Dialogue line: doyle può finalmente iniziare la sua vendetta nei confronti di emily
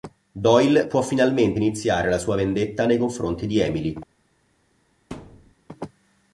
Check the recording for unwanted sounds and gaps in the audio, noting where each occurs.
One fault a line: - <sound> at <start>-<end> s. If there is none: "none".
- thud at 5.1-5.5 s